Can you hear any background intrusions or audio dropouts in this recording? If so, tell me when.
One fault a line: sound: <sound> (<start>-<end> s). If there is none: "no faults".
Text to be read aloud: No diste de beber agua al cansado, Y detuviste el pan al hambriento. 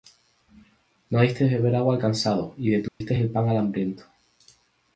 sound: dropout (2.9-3.0 s)